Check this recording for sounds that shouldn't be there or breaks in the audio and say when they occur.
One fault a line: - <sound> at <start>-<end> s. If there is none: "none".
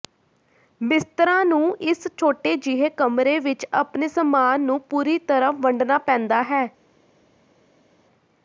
none